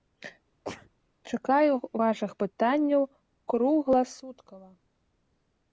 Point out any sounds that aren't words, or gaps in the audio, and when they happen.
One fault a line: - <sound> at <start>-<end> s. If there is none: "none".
- sneeze at 0.6-0.9 s